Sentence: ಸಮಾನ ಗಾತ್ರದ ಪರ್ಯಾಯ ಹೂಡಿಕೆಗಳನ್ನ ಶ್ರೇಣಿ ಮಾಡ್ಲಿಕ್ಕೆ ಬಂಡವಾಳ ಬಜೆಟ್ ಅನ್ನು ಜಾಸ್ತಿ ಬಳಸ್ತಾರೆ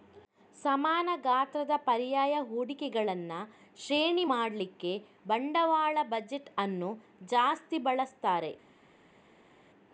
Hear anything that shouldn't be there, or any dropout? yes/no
no